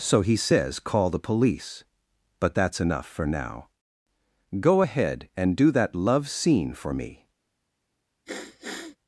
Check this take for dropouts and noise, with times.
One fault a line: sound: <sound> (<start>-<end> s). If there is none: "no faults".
sound: sniff (8.3-9.0 s)